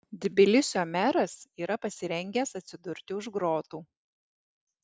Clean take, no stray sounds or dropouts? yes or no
yes